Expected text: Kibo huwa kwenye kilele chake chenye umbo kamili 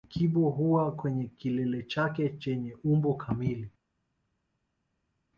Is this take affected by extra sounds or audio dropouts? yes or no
no